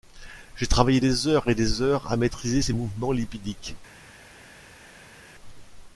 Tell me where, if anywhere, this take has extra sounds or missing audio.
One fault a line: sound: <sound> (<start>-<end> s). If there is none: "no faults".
no faults